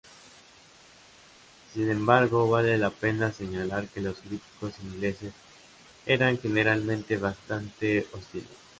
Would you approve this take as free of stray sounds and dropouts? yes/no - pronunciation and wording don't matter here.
yes